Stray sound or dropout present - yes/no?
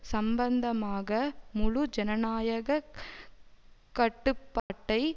yes